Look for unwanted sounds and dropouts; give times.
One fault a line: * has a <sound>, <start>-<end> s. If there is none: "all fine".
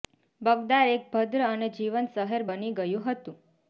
all fine